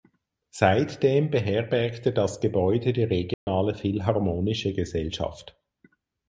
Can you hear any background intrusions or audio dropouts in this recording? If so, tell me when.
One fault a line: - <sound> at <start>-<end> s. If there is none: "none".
- dropout at 3.3-3.5 s